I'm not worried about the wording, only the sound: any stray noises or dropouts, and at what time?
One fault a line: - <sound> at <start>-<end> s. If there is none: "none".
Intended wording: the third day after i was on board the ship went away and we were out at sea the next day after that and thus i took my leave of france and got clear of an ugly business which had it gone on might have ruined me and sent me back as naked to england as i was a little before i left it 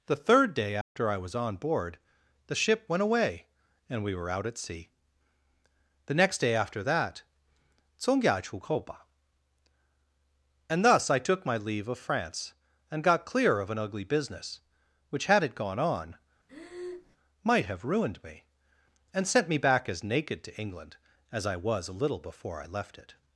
- dropout at 0.8-1.0 s
- breath at 16.5-17.2 s